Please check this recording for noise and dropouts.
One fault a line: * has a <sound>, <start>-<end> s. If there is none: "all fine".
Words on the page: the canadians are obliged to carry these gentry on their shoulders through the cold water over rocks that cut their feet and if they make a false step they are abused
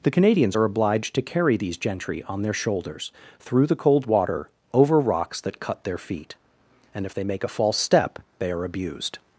all fine